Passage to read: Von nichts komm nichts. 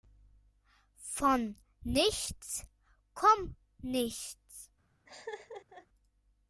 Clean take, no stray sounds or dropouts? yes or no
no